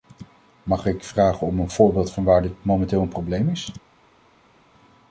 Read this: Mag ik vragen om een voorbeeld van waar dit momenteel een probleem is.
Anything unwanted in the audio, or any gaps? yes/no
no